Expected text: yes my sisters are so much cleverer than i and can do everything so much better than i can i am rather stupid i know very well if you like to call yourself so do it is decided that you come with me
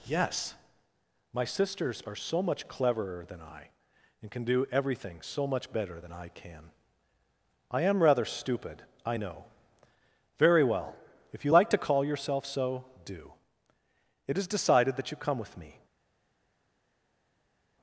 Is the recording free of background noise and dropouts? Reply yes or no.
yes